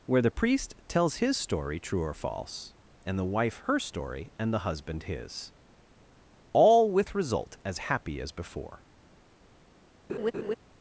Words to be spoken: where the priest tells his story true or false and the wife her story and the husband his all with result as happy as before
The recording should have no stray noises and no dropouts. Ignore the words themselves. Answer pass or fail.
fail